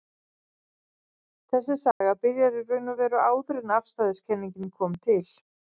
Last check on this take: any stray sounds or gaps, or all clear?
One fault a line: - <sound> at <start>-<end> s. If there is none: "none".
- dropout at 1.9-2.0 s